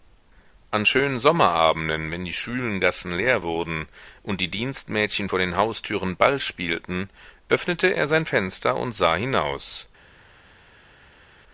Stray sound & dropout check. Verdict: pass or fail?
pass